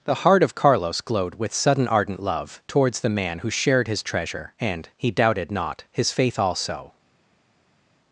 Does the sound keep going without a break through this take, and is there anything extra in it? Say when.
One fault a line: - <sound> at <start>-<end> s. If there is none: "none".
none